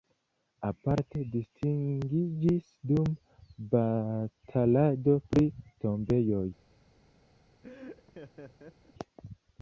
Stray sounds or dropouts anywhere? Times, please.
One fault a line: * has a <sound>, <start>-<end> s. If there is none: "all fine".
* has a laugh, 7.6-8.9 s